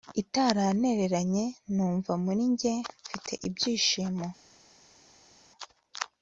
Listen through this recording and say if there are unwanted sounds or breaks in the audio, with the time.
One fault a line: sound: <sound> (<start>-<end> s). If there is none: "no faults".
no faults